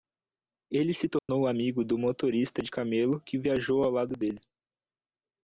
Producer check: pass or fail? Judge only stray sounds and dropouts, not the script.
fail